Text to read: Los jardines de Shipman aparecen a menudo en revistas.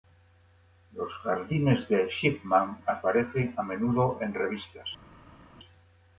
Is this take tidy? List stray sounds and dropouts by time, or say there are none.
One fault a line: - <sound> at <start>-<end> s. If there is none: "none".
none